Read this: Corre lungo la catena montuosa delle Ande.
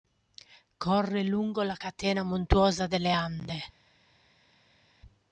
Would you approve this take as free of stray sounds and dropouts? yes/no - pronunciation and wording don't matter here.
yes